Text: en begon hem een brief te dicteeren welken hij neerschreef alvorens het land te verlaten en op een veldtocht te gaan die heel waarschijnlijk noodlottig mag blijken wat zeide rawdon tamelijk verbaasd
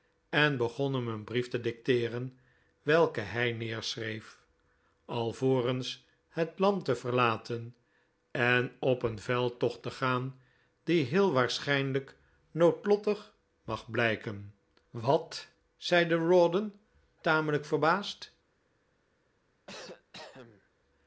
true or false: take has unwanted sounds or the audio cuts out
true